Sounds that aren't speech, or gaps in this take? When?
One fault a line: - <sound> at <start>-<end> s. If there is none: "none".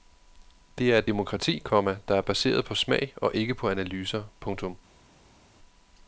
none